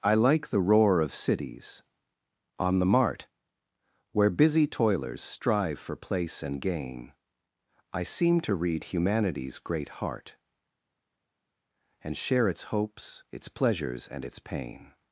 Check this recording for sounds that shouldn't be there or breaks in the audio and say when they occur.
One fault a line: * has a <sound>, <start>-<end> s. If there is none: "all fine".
all fine